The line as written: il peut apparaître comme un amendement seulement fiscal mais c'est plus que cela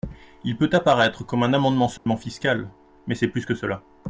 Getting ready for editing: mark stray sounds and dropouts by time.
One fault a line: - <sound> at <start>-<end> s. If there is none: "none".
- dropout at 2.0-2.1 s